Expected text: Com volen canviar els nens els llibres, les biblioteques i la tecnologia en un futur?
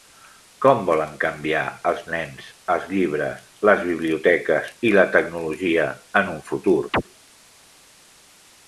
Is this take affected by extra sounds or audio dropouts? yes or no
yes